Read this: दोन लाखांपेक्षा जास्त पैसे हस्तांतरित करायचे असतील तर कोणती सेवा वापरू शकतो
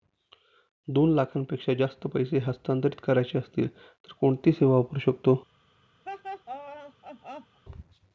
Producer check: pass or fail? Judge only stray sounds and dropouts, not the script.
fail